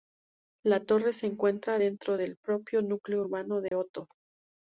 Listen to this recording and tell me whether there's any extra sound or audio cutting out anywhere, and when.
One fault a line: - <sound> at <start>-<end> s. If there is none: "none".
- dropout at 3.7-3.7 s